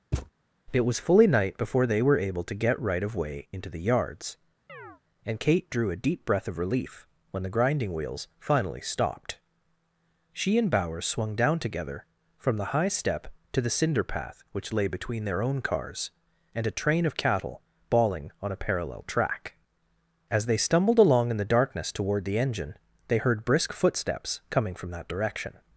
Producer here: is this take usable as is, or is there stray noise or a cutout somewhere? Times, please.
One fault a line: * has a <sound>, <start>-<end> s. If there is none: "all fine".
* has a thud, 0.1-0.3 s
* has a chirp, 4.7-5.0 s